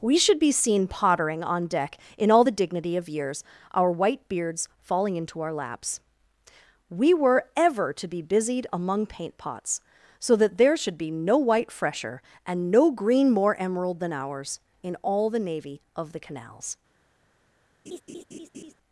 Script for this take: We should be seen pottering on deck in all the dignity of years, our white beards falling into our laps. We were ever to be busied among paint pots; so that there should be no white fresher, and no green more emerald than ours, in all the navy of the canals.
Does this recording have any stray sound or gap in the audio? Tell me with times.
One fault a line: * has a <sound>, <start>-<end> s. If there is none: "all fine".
* has a laugh, 17.9-18.7 s